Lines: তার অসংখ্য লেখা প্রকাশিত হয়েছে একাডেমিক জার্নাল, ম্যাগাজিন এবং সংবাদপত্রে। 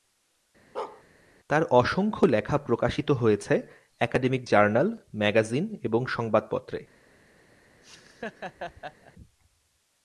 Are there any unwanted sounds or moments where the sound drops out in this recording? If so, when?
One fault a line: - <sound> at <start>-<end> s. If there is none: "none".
- bark at 0.7-1.0 s
- laugh at 7.8-9.1 s